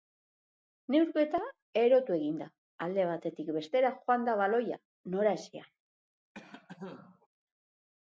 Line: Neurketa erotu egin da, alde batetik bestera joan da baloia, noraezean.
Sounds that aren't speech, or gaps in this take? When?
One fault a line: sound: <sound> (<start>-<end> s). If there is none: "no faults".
sound: cough (6.3-7.3 s)